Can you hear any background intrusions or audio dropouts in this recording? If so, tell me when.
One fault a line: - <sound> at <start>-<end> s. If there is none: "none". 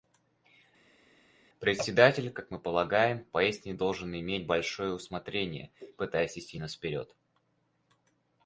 none